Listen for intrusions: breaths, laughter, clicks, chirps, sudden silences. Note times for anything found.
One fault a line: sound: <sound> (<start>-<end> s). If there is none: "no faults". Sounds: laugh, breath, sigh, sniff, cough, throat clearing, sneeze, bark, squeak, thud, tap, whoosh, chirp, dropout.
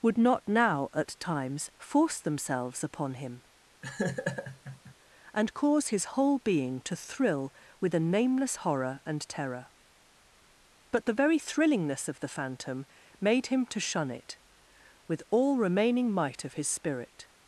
sound: laugh (3.8-4.9 s)